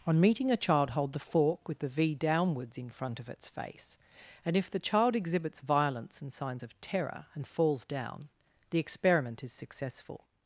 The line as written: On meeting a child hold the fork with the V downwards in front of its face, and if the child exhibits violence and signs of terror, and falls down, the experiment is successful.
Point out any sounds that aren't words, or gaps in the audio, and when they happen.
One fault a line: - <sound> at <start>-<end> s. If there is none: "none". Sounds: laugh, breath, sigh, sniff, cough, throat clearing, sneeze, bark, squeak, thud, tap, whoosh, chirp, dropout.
none